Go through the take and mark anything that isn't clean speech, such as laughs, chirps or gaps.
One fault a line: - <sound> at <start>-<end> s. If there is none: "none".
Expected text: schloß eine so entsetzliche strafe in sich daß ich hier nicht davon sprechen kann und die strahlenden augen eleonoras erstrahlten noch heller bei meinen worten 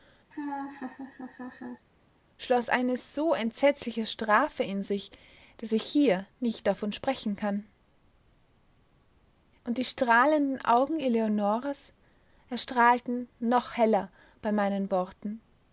- laugh at 0.3-1.9 s